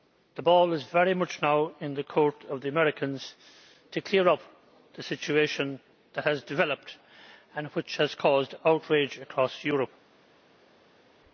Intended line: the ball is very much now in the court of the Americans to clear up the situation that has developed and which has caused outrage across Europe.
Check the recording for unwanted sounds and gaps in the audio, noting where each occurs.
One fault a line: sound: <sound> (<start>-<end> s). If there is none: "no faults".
no faults